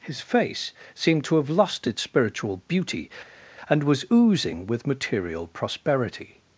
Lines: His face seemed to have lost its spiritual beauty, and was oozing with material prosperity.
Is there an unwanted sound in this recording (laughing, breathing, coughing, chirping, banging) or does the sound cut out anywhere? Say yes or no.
no